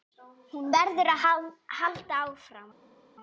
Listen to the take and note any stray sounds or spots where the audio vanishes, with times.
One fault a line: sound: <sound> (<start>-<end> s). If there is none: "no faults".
no faults